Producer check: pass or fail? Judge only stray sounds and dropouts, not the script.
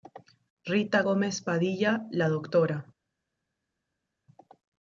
pass